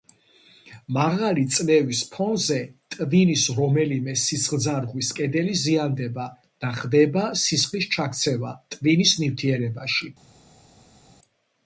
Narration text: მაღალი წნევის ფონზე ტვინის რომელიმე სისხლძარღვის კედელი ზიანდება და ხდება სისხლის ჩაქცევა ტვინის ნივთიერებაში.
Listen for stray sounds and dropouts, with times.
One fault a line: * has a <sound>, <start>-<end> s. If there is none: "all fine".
all fine